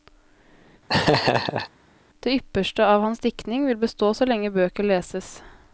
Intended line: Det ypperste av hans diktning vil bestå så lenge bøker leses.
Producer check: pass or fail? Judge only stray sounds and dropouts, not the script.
fail